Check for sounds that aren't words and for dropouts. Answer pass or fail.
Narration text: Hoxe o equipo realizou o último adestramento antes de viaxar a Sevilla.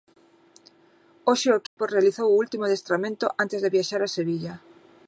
fail